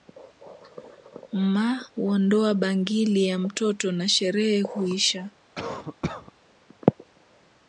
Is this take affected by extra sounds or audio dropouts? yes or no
yes